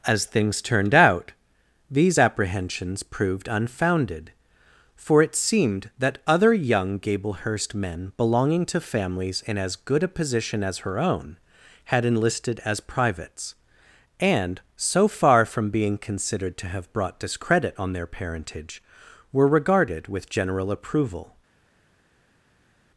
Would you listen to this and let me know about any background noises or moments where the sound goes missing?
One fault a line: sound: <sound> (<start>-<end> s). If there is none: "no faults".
no faults